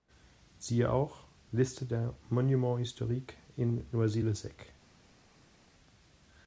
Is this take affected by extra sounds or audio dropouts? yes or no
no